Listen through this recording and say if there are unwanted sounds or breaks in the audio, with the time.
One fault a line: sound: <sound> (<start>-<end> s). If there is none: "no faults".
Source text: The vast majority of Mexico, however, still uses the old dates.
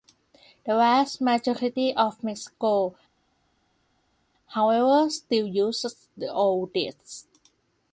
no faults